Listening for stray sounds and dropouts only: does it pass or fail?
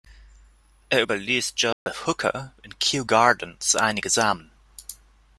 fail